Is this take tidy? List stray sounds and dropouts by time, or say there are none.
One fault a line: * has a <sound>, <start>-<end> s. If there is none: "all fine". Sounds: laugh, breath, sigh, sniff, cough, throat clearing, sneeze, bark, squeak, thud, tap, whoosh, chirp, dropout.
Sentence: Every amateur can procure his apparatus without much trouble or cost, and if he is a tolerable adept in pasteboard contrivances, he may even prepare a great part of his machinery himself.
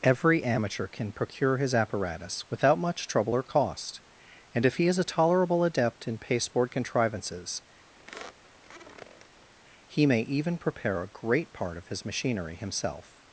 * has a squeak, 8.0-9.5 s